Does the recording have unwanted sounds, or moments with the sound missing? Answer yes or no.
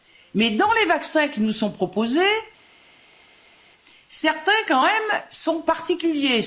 no